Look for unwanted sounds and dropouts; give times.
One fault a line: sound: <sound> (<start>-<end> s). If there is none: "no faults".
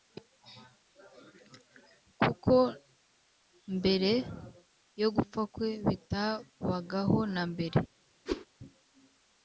sound: whoosh (8.3-8.5 s)